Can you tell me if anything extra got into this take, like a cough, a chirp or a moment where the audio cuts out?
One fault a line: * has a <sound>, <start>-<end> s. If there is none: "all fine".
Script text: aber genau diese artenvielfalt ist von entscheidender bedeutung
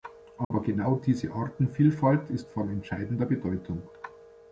* has a dropout, 0.4-0.5 s